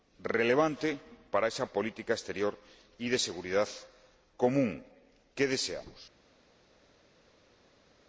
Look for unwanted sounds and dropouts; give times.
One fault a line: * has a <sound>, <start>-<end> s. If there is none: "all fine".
all fine